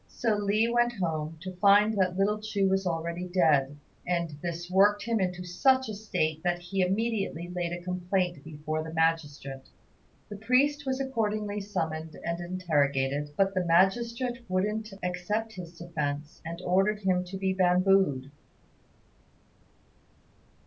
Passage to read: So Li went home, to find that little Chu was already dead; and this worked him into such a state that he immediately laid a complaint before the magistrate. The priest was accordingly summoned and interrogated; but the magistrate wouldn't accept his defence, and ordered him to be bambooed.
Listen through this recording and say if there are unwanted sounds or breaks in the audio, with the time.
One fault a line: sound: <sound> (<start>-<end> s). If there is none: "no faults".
no faults